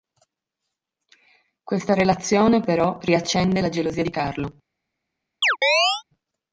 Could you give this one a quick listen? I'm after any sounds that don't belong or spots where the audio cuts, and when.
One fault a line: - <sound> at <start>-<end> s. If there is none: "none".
- chirp at 5.4-6.0 s